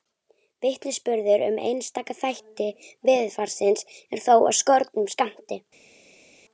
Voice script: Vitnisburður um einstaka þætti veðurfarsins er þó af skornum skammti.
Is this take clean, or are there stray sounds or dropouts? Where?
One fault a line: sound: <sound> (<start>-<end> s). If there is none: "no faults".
no faults